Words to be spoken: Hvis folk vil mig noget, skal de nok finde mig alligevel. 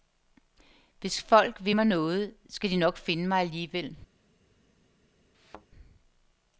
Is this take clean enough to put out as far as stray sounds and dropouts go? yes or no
no